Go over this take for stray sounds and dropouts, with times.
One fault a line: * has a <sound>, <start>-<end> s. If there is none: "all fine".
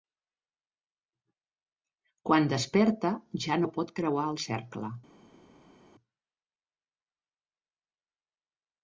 all fine